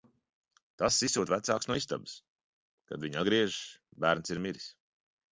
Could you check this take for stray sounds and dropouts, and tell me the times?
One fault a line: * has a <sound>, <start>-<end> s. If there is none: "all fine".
all fine